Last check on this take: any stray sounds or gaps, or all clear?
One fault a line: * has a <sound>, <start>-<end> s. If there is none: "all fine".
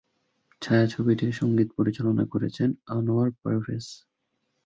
all fine